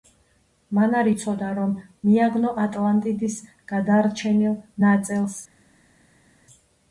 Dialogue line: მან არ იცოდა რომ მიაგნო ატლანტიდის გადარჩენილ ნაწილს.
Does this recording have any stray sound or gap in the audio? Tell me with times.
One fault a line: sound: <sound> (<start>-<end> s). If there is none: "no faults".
no faults